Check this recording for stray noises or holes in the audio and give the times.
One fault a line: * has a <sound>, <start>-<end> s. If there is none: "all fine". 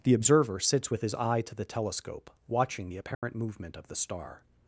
* has a dropout, 3.1-3.2 s